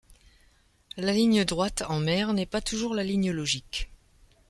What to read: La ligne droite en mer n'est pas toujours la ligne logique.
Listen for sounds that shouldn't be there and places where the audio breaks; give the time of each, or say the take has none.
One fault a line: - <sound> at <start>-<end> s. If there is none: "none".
none